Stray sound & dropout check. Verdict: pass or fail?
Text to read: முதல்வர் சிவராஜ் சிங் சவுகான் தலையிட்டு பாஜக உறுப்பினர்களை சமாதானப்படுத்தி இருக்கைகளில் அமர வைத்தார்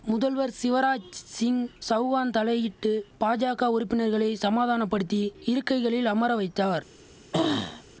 fail